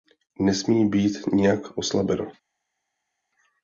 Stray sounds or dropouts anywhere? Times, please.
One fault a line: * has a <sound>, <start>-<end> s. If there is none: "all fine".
all fine